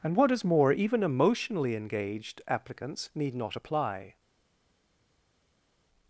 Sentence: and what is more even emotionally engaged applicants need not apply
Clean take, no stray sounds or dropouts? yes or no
yes